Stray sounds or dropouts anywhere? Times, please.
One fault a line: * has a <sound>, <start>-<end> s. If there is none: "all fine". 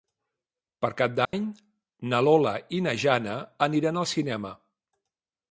* has a dropout, 1.2-1.3 s